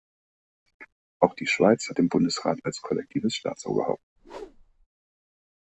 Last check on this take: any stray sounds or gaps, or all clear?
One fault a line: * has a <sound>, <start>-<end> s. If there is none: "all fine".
* has a whoosh, 4.2-4.9 s